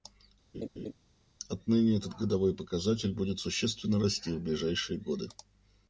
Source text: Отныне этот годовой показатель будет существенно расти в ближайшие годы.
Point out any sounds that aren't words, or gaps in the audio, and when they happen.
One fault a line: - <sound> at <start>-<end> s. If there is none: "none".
- laugh at 0.5-0.9 s